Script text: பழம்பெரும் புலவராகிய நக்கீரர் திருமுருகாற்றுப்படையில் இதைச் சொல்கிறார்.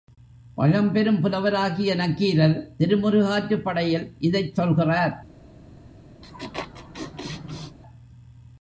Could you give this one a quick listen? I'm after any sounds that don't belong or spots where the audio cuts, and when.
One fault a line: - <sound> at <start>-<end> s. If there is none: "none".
- laugh at 6.2-7.8 s